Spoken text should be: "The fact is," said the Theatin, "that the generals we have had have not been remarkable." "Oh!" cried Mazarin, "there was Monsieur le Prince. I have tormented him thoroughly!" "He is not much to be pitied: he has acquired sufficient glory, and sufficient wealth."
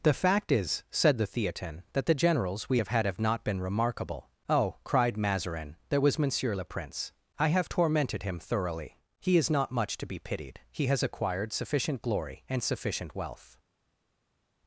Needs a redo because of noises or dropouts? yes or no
no